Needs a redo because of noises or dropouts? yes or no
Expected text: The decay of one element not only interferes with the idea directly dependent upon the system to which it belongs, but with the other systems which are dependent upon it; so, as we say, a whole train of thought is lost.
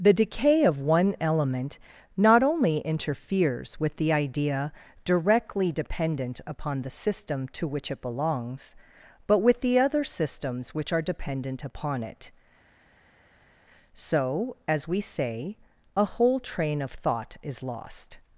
no